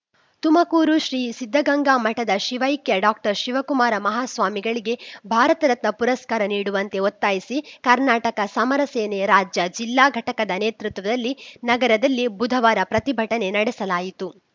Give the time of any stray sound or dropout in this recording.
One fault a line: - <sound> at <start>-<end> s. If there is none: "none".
none